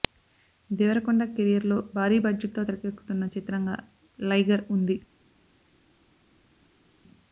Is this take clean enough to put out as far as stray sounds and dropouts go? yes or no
yes